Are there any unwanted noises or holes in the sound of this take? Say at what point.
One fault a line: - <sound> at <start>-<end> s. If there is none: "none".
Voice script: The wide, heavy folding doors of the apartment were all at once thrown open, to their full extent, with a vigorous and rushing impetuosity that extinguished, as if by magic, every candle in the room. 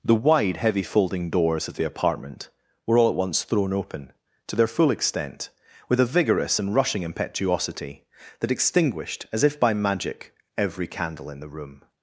none